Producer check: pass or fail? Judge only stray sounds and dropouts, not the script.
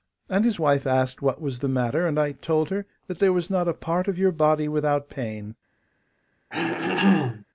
fail